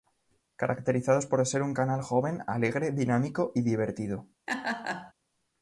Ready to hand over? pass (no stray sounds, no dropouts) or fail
fail